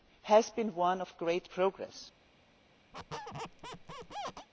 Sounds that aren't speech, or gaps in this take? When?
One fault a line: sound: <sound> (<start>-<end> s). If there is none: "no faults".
sound: squeak (2.9-4.5 s)